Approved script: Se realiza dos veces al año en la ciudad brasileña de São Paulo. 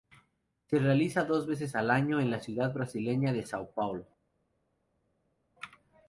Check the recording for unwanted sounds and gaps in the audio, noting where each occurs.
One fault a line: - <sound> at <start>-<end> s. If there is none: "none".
none